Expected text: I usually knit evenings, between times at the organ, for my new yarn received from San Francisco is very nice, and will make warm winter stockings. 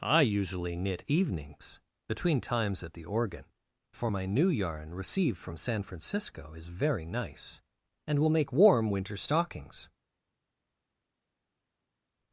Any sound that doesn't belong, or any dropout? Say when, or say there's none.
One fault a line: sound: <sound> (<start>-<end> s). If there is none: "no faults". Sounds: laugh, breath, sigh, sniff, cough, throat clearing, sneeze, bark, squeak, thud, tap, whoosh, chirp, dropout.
no faults